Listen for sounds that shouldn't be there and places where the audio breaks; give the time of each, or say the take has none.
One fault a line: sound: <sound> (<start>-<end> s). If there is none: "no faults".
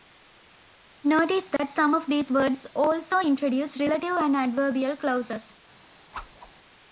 sound: dropout (1.6-1.6 s)
sound: whoosh (6.1-6.5 s)